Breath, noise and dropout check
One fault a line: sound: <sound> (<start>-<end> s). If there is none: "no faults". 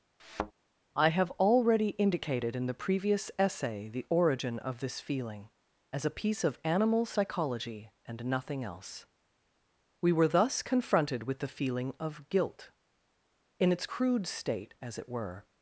sound: thud (0.2-0.5 s)